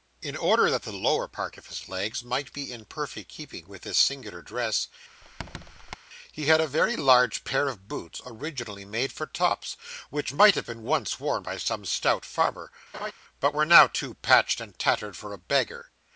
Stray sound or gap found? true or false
true